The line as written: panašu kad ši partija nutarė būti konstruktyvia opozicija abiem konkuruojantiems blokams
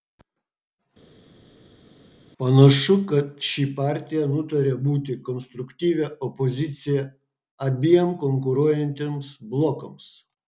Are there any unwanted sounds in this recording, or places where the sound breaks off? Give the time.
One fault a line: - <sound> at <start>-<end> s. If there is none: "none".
none